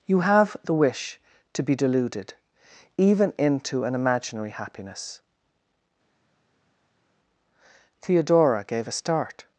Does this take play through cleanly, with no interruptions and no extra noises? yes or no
yes